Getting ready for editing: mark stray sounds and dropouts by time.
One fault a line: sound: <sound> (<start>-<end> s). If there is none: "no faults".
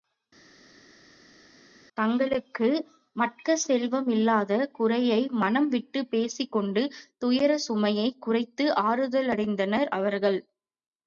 no faults